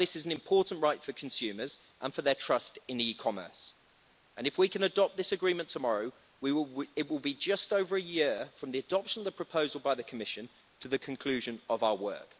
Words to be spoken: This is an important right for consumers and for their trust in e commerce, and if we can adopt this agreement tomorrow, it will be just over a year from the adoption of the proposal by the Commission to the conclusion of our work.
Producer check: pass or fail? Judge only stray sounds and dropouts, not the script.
pass